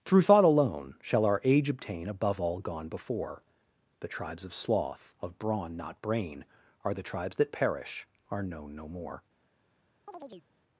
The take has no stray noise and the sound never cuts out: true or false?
false